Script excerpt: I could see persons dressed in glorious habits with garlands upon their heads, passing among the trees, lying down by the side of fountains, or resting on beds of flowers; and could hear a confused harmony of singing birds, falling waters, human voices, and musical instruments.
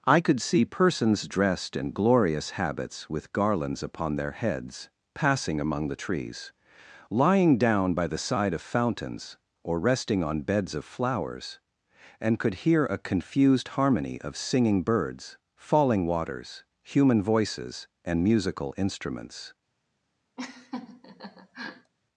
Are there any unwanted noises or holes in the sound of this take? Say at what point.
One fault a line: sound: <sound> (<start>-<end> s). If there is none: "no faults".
sound: laugh (20.4-21.9 s)